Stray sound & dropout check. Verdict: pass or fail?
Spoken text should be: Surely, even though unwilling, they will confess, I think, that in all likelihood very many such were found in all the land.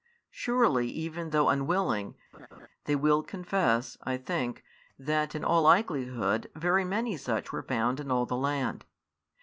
fail